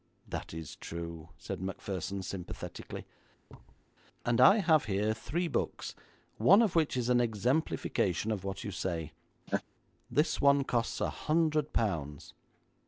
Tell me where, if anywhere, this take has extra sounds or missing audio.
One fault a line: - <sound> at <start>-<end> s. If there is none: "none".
- thud at 3.5-3.9 s
- laugh at 9.5-9.6 s